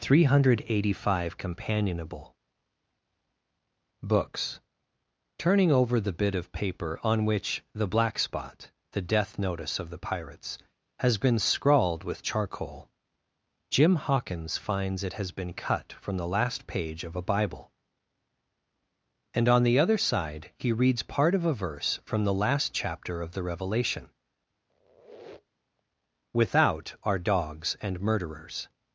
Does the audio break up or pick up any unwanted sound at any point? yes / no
yes